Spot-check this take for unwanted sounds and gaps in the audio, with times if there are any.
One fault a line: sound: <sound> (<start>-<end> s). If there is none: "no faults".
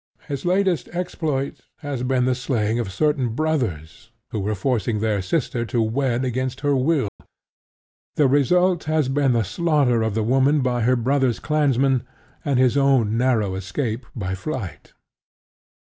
sound: dropout (7.1-7.2 s)